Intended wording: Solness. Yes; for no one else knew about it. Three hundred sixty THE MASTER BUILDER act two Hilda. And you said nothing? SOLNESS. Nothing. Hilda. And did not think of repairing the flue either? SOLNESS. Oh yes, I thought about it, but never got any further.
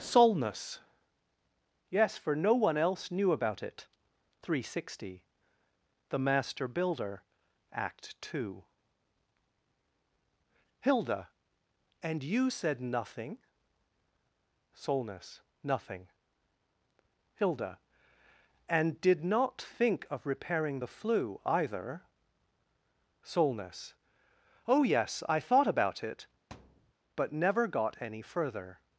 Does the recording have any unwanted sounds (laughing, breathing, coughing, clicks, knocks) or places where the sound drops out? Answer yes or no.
yes